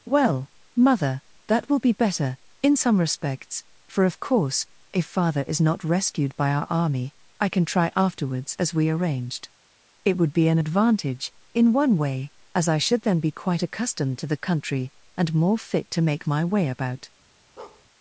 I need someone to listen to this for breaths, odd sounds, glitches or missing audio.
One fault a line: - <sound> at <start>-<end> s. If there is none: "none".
- bark at 17.6-17.9 s